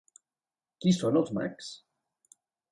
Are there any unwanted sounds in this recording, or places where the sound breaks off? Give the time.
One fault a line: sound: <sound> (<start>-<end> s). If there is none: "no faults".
no faults